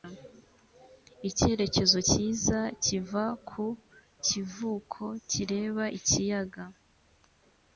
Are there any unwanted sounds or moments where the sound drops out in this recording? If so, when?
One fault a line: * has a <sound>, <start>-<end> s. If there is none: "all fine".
all fine